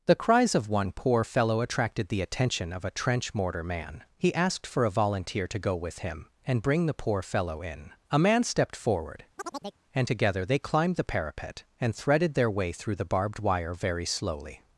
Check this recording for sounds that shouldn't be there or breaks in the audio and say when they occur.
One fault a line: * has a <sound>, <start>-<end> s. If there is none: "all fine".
* has a chirp, 9.4-9.8 s